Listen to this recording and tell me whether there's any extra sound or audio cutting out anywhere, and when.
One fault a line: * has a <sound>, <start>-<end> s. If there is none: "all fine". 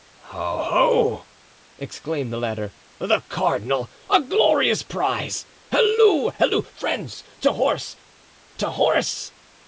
all fine